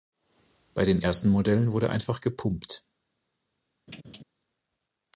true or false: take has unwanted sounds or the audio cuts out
true